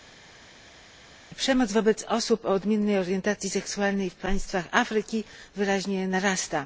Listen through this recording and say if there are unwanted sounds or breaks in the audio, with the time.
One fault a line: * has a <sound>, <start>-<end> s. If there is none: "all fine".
all fine